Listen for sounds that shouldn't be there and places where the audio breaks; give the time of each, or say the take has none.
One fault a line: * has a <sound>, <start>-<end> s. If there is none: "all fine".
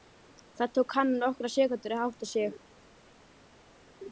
all fine